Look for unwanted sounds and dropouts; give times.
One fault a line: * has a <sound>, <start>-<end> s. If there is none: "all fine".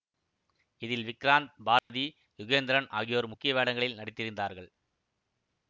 * has a dropout, 1.8-1.9 s